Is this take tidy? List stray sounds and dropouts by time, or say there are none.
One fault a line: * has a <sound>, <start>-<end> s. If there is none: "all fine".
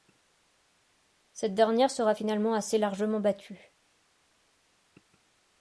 all fine